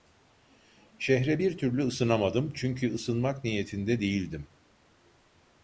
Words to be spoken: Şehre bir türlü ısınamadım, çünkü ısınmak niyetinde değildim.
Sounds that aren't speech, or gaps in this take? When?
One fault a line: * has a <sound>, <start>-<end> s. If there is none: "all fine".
all fine